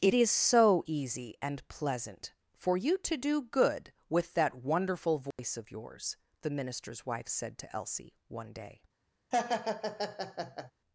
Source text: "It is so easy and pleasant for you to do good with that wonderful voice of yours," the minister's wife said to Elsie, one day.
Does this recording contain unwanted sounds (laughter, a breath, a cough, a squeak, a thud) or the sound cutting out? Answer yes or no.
yes